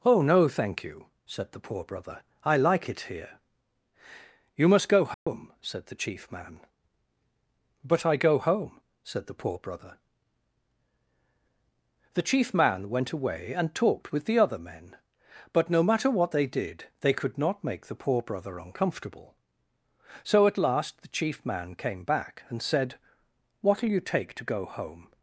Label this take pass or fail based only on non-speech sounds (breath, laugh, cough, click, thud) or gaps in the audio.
fail